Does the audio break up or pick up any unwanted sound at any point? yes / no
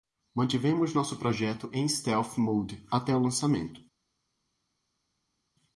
no